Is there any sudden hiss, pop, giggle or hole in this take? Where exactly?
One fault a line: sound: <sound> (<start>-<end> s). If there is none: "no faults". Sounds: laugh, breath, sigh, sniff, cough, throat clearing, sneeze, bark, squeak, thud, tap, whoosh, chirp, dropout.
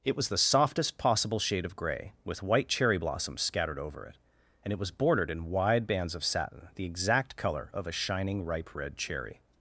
no faults